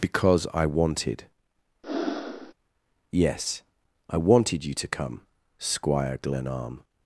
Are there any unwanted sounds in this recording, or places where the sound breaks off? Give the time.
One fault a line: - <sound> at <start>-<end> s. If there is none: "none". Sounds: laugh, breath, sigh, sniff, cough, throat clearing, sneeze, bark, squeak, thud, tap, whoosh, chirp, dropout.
- breath at 1.8-2.5 s